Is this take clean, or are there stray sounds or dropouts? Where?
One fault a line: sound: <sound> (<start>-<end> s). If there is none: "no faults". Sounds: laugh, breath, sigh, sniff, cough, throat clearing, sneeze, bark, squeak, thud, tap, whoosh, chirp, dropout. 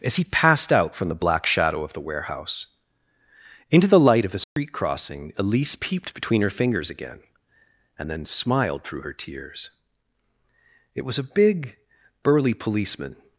sound: dropout (4.4-4.6 s)